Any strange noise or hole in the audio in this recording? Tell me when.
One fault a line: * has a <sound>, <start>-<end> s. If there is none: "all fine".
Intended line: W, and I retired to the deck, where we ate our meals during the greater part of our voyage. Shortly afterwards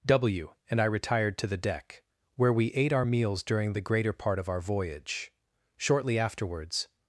all fine